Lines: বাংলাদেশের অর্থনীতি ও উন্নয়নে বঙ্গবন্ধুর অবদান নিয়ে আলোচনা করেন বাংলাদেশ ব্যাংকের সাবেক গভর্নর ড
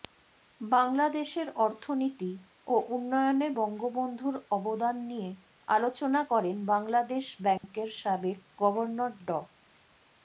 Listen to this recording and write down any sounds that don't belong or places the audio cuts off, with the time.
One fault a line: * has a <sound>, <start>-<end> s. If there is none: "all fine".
* has a dropout, 7.6-7.6 s